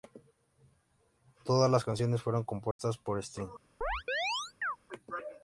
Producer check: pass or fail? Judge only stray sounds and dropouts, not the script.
fail